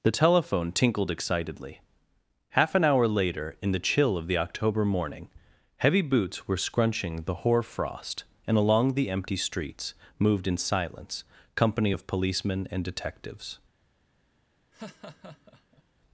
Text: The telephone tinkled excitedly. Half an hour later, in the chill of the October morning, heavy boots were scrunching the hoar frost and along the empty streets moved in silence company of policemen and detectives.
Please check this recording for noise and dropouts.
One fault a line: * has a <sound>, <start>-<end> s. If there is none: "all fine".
* has a laugh, 14.7-15.8 s